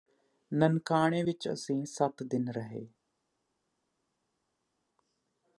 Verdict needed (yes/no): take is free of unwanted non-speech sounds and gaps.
yes